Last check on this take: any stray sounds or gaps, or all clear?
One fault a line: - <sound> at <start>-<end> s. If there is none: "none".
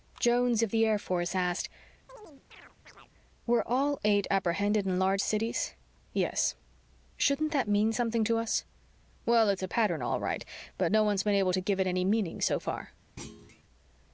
- chirp at 2.1-3.1 s
- thud at 13.2-13.6 s